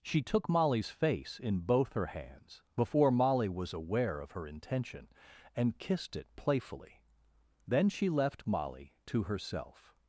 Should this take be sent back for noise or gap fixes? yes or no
no